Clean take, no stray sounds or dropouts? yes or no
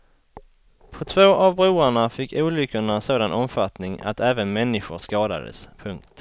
yes